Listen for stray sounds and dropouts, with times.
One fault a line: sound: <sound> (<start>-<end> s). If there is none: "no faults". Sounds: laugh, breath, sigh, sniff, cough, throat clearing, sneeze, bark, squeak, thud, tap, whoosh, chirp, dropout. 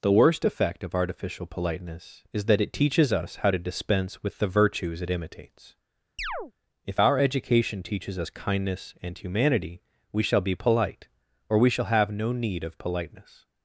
sound: chirp (6.2-6.5 s)